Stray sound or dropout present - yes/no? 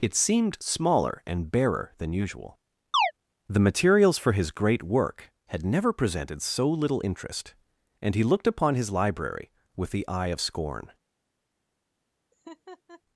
yes